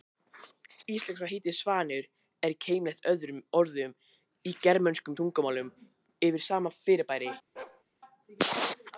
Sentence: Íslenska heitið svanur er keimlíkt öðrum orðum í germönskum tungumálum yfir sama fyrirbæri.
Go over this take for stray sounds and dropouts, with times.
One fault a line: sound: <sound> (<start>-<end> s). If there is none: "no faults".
sound: bark (7.6-7.8 s)